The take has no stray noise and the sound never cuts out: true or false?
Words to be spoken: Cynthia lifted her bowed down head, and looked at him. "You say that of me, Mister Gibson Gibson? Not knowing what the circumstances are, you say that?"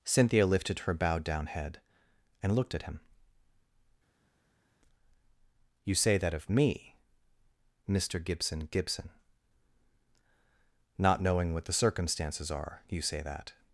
true